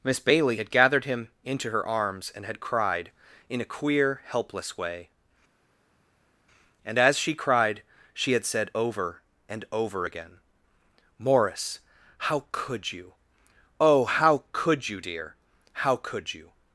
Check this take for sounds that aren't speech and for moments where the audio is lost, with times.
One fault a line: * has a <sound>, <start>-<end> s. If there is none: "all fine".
all fine